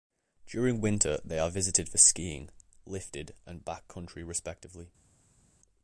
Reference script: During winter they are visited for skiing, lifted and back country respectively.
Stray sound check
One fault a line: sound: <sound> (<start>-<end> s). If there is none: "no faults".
no faults